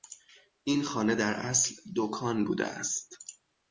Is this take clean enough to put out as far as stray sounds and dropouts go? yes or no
yes